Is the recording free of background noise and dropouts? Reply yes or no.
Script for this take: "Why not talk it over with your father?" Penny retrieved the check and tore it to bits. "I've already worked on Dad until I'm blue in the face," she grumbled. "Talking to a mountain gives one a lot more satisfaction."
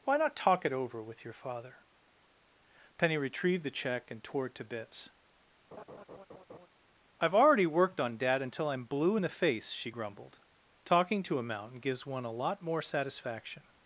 no